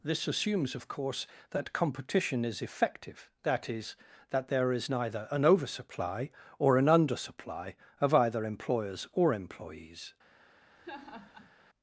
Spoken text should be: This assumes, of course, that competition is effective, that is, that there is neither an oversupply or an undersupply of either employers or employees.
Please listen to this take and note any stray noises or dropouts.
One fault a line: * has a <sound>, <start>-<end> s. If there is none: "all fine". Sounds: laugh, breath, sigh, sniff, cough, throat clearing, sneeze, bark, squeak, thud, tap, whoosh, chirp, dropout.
* has a laugh, 10.8-11.5 s